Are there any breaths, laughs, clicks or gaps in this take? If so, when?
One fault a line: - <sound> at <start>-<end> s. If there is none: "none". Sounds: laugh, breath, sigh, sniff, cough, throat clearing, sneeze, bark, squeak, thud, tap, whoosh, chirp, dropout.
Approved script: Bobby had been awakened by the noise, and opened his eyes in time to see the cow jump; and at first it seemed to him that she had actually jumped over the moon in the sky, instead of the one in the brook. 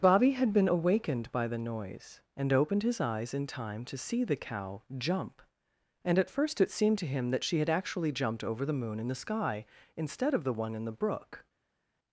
none